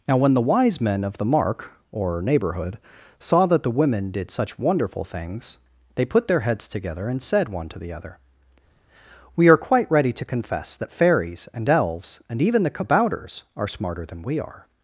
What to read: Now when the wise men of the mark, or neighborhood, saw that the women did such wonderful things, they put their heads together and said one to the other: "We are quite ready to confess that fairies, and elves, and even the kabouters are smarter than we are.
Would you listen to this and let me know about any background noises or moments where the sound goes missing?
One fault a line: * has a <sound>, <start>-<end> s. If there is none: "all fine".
all fine